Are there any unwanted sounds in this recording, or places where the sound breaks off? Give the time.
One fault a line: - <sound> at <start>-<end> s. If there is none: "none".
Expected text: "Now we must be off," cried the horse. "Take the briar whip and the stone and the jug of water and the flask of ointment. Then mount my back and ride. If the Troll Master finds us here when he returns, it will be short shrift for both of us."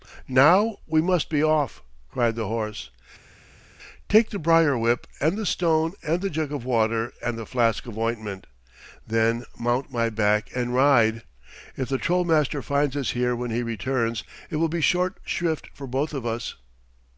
none